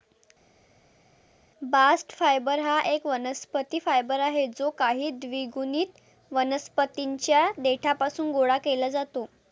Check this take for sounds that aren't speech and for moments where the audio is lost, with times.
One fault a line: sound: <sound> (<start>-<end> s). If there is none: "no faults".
no faults